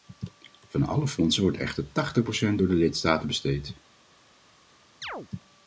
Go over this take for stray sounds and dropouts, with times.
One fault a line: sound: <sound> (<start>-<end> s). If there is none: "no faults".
sound: chirp (5.0-5.3 s)